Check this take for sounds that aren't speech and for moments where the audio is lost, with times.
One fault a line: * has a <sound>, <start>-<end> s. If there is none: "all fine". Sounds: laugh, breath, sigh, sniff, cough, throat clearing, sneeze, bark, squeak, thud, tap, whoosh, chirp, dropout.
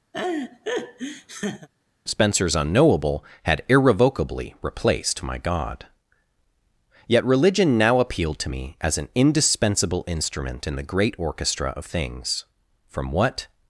* has a laugh, 0.1-1.7 s